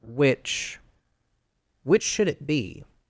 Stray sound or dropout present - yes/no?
no